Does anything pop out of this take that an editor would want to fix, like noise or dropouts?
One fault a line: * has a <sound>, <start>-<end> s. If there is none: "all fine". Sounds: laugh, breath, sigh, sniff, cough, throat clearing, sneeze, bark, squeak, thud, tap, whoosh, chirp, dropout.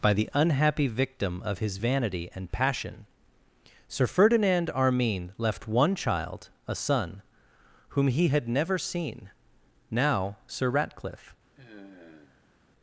* has a sigh, 11.6-12.6 s